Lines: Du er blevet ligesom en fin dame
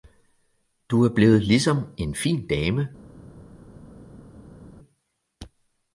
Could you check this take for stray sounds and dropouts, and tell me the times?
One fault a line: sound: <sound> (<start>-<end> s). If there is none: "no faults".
no faults